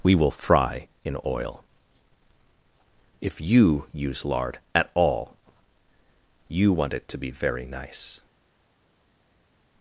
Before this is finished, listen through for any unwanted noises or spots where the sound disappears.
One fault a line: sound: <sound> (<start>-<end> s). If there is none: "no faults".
no faults